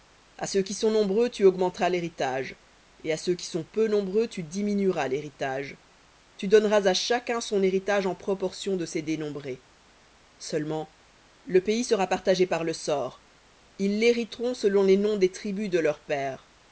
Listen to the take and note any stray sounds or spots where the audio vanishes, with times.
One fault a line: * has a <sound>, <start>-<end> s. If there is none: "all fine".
all fine